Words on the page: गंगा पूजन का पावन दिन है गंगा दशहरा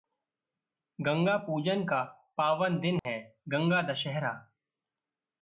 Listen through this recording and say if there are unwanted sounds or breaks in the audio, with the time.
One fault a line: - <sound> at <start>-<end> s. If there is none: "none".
- dropout at 3.0-3.0 s